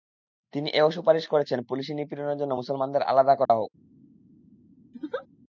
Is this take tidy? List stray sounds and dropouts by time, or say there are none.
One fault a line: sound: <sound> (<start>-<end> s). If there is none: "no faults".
sound: dropout (3.5-3.5 s)
sound: laugh (4.9-5.3 s)